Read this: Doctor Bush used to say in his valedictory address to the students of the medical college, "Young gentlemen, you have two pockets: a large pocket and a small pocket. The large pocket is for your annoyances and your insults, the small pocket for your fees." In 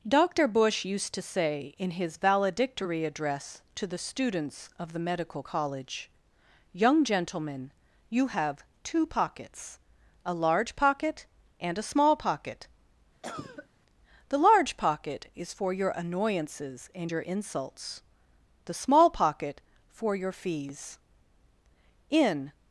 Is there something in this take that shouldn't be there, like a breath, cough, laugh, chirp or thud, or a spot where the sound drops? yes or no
yes